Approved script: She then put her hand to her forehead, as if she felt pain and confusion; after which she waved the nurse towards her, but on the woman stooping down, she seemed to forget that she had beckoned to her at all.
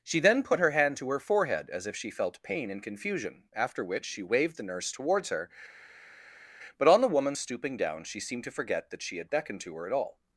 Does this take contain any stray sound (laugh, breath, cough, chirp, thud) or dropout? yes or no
no